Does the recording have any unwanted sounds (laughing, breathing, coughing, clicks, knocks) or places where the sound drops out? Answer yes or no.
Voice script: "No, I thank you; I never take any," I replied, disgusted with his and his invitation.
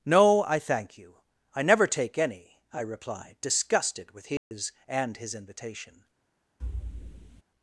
yes